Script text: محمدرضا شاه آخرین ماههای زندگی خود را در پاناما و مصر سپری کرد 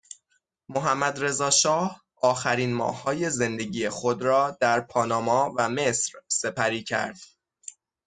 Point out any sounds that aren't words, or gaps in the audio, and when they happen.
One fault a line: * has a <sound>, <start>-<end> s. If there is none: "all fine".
all fine